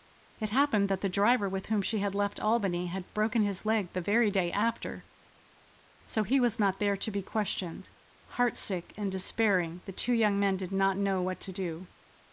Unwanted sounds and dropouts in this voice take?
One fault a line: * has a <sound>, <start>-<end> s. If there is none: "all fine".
all fine